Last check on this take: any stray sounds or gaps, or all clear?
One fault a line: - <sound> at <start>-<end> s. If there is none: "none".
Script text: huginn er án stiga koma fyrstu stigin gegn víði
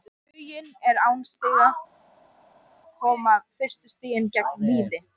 none